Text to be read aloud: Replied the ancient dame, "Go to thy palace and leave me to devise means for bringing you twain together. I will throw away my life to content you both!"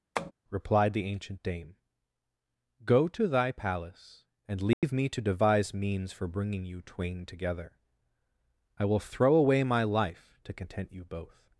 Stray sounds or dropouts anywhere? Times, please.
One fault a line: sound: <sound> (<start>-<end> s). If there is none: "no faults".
sound: tap (0.2-0.3 s)
sound: dropout (4.7-4.8 s)